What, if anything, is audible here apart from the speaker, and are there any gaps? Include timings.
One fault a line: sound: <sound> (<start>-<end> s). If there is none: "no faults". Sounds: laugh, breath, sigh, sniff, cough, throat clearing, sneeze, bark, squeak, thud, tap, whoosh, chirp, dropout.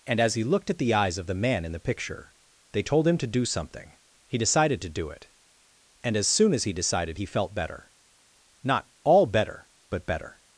no faults